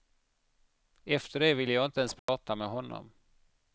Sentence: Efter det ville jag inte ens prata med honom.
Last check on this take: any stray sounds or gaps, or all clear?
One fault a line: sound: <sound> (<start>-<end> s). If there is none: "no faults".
sound: dropout (2.2-2.3 s)